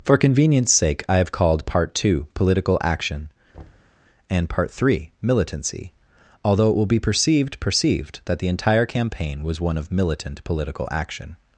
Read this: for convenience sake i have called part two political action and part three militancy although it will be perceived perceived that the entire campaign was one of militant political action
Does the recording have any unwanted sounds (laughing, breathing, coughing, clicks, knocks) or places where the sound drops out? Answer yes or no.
yes